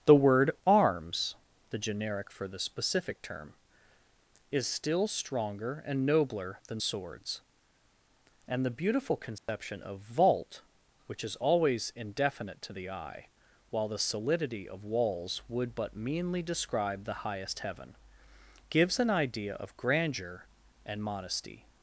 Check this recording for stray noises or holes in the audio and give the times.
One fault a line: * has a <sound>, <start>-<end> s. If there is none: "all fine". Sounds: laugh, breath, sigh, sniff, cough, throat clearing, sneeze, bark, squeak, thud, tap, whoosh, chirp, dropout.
* has a dropout, 9.4-9.5 s